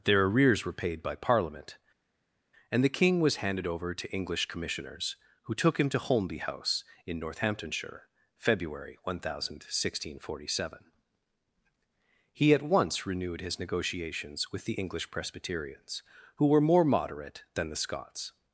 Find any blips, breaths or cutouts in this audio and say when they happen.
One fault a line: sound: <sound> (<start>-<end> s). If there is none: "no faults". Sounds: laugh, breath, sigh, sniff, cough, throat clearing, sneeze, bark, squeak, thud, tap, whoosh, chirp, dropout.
no faults